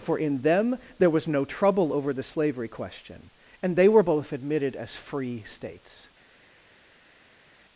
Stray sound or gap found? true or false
false